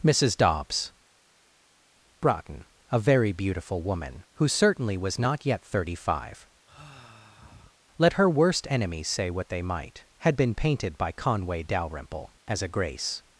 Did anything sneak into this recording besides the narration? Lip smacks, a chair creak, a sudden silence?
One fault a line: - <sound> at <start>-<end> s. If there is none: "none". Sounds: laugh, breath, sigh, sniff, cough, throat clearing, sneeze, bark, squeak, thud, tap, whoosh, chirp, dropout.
- sigh at 6.6-7.8 s